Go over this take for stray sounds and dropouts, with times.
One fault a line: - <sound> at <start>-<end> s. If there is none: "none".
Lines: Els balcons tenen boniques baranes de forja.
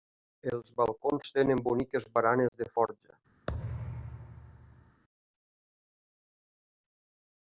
- dropout at 2.5-2.5 s
- thud at 3.5-5.0 s